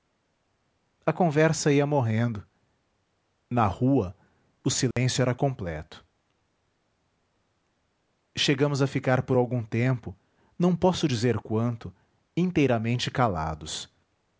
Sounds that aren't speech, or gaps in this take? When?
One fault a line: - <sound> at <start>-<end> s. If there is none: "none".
- dropout at 4.9-5.0 s